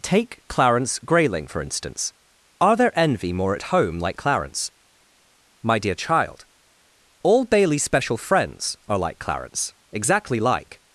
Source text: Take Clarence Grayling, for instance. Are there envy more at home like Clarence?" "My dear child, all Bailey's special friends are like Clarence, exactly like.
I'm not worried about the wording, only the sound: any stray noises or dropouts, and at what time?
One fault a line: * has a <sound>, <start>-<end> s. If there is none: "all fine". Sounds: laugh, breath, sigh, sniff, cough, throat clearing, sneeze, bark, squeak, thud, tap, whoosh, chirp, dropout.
all fine